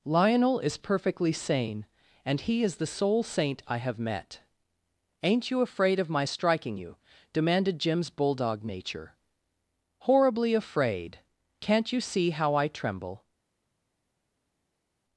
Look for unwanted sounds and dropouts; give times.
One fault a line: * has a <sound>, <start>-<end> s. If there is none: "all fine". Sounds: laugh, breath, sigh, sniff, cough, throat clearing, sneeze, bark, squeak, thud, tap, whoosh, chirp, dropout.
all fine